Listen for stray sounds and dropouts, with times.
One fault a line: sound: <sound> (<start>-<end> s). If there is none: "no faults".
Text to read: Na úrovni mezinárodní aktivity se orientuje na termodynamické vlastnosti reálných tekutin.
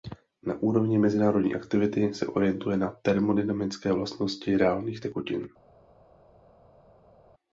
no faults